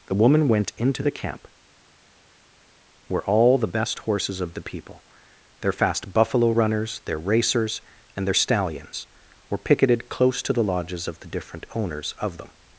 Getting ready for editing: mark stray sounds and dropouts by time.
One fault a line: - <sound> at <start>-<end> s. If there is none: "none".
none